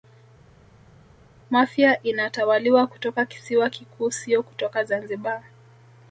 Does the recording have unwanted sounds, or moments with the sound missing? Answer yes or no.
no